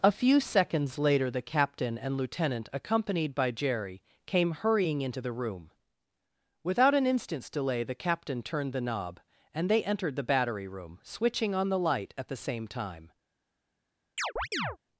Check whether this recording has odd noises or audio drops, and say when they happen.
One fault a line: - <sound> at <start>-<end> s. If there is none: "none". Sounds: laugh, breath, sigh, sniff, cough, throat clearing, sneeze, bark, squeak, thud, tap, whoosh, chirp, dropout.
- chirp at 14.2-14.8 s